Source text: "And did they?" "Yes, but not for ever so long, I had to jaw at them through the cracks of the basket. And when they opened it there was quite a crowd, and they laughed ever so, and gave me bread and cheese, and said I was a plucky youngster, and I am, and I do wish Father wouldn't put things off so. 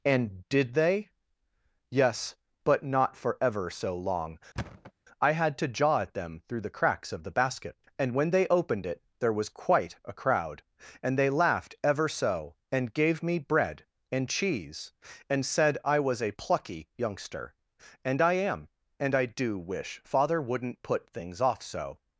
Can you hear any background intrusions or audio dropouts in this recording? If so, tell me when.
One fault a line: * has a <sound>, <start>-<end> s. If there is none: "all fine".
* has a thud, 4.6-4.9 s